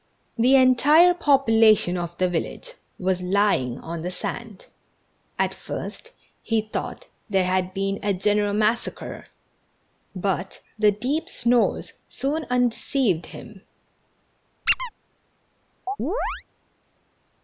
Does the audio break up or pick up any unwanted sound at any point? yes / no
yes